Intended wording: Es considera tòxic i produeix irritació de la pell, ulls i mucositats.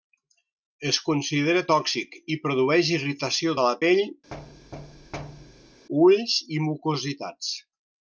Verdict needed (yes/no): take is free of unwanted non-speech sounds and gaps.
no